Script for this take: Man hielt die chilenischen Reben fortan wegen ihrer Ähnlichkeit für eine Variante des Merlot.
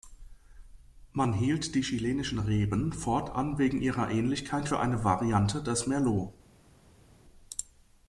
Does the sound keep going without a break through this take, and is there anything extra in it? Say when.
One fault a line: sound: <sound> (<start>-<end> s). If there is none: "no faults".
no faults